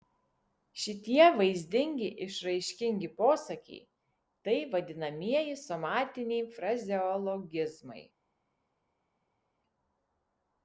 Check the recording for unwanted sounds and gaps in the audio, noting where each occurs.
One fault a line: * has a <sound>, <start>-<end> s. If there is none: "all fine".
all fine